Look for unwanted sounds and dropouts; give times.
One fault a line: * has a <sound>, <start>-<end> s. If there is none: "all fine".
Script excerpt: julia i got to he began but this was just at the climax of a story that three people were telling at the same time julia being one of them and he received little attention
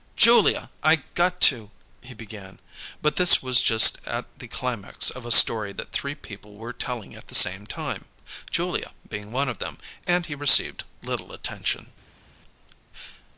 all fine